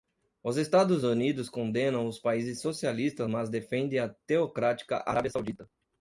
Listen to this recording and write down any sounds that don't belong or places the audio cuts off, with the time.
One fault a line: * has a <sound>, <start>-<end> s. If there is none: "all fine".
all fine